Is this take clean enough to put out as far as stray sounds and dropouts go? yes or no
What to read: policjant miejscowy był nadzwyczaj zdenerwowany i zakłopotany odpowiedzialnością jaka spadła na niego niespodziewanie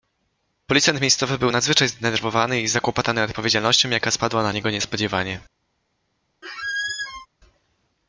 no